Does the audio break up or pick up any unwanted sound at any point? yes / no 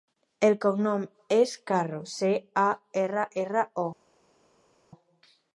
no